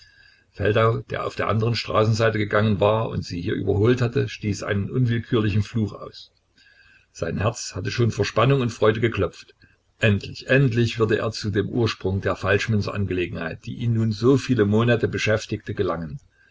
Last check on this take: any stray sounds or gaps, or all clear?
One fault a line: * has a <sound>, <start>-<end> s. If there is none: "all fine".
all fine